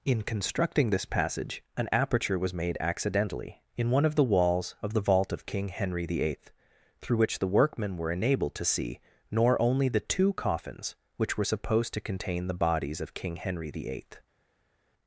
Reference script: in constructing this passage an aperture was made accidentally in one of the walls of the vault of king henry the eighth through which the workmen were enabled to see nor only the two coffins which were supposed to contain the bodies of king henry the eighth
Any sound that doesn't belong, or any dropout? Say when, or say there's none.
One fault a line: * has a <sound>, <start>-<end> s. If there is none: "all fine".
all fine